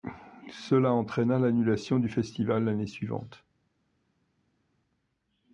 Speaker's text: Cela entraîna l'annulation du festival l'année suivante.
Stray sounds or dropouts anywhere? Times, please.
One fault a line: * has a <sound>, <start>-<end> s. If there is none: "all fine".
all fine